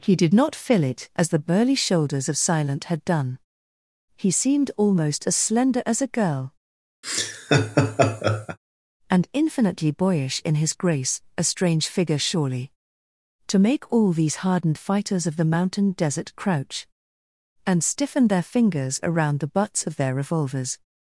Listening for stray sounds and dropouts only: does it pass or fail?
fail